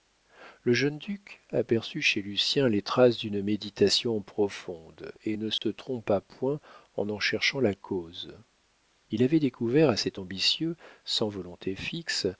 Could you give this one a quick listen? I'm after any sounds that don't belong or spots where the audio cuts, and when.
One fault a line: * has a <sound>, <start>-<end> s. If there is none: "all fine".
* has a dropout, 5.6-5.6 s